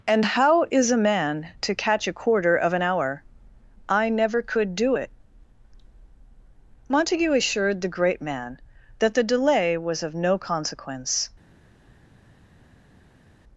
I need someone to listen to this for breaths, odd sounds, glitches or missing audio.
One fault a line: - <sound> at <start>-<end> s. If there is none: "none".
none